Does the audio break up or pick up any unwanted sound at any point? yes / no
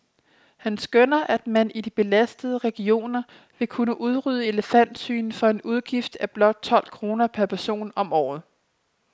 no